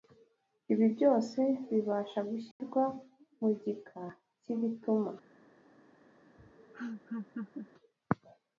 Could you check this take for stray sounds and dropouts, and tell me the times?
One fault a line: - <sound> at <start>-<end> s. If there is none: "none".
- dropout at 2.5-2.6 s
- laugh at 6.4-7.7 s